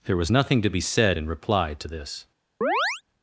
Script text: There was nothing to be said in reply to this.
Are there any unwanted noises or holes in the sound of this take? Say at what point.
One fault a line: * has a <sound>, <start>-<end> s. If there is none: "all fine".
* has a chirp, 2.6-3.0 s